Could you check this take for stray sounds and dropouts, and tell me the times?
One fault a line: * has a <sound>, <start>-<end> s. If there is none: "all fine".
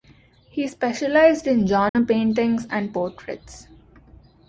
* has a dropout, 1.9-2.0 s